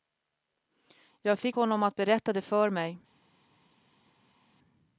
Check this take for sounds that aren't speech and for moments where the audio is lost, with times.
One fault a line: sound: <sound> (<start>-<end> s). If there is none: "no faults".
no faults